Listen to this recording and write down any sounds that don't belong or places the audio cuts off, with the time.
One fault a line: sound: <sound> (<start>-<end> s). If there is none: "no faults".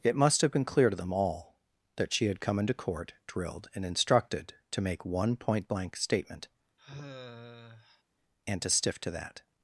sound: sigh (6.8-8.0 s)